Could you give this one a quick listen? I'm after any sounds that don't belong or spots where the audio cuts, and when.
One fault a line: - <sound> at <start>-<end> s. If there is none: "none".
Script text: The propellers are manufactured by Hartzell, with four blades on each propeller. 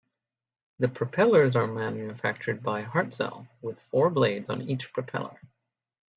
none